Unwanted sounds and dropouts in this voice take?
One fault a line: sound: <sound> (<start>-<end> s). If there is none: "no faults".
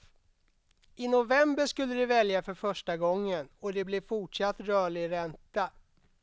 no faults